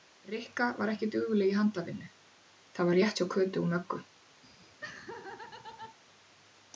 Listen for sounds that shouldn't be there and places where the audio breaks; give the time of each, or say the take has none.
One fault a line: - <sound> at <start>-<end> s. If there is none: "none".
- laugh at 4.4-6.0 s